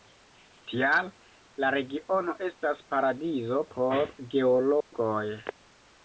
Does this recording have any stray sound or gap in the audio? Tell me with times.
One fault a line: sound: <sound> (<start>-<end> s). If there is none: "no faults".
sound: dropout (4.8-4.9 s)